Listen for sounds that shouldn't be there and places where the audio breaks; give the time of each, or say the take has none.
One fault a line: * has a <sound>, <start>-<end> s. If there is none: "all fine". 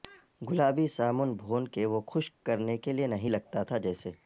all fine